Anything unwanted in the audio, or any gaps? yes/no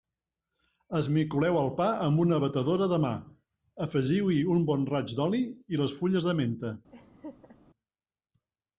yes